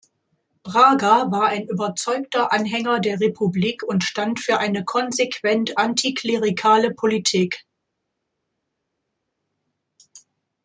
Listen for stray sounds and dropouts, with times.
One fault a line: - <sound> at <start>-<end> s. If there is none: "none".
none